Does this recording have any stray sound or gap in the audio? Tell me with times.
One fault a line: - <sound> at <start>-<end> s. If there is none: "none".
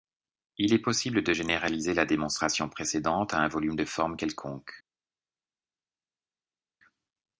none